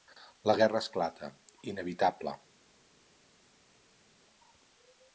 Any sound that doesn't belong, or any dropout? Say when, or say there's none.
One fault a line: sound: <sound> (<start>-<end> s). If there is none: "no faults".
no faults